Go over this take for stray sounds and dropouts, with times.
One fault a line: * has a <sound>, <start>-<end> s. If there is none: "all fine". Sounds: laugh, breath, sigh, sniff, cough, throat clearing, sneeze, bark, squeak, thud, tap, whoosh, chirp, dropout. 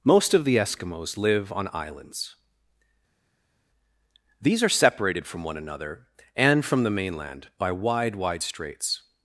all fine